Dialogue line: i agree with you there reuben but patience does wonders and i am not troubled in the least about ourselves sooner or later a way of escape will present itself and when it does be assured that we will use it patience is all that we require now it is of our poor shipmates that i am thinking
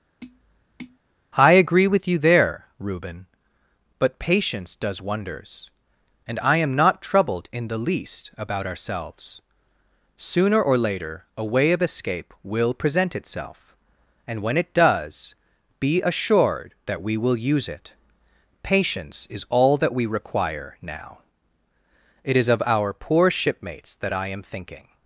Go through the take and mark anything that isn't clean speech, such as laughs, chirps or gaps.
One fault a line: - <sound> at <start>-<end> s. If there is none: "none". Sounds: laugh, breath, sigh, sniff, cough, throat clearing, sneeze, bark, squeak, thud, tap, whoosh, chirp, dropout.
- tap at 0.2-1.0 s